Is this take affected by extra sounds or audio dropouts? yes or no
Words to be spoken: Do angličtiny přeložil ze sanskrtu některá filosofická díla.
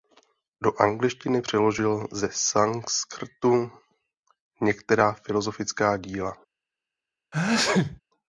yes